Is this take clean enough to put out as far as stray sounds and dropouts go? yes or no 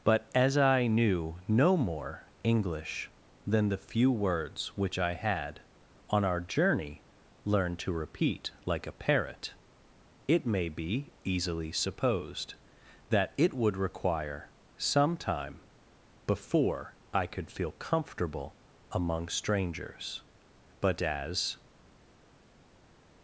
yes